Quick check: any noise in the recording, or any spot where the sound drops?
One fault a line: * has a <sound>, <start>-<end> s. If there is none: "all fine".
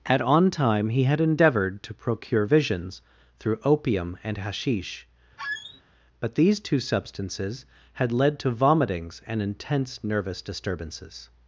* has a squeak, 5.4-5.8 s